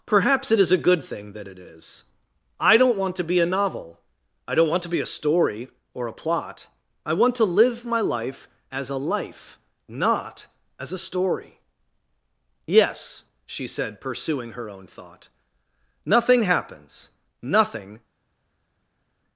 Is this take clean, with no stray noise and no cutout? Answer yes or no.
yes